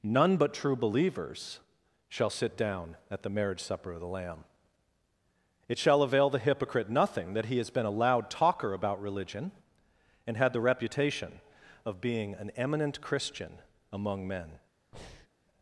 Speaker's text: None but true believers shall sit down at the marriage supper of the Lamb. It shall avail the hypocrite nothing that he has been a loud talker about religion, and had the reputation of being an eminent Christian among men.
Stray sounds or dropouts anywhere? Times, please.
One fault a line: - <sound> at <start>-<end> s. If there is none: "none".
- breath at 14.9-15.3 s